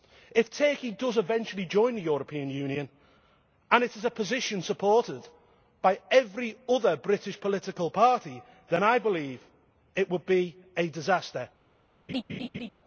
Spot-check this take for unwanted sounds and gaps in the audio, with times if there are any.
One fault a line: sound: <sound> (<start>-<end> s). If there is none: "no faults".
sound: laugh (12.1-12.7 s)